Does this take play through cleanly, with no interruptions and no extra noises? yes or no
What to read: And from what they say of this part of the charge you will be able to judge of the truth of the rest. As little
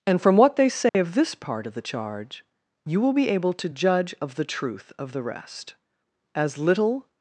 no